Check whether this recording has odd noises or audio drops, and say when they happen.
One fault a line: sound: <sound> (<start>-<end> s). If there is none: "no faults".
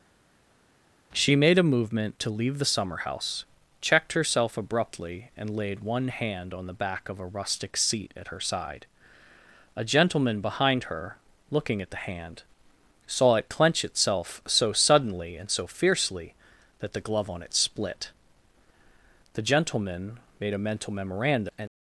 no faults